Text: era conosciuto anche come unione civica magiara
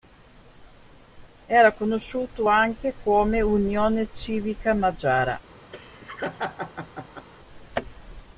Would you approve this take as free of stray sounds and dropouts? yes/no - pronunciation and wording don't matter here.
no